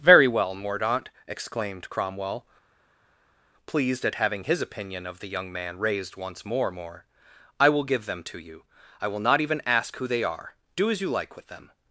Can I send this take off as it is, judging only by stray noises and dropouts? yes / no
yes